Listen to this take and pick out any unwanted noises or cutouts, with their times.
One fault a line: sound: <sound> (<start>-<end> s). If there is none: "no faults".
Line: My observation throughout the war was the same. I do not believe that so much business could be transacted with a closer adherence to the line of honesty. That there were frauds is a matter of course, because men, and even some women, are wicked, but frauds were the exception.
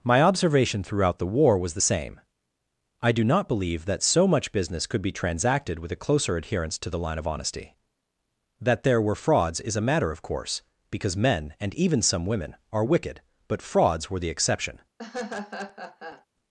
sound: laugh (15.0-16.3 s)